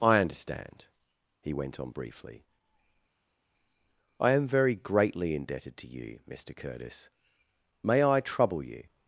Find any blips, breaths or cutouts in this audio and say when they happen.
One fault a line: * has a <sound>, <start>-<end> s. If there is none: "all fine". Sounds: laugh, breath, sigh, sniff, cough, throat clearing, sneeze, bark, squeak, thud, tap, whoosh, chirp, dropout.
all fine